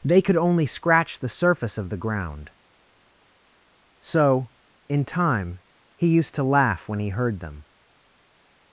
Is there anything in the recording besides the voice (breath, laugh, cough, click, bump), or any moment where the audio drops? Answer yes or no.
no